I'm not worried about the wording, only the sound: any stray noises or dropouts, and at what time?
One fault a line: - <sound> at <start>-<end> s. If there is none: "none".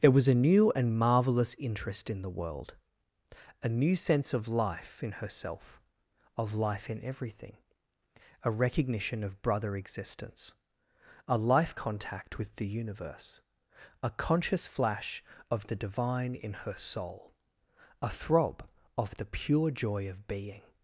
none